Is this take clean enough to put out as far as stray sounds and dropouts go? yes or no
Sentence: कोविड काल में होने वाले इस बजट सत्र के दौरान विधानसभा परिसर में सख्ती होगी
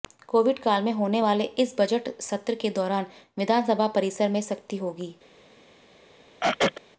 no